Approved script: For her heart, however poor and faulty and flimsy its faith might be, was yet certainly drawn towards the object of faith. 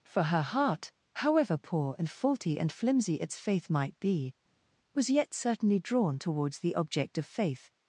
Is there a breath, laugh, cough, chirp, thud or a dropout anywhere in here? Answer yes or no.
no